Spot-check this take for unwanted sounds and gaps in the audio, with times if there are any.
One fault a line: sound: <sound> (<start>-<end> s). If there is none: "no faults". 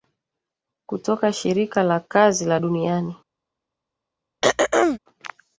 sound: throat clearing (4.4-5.0 s)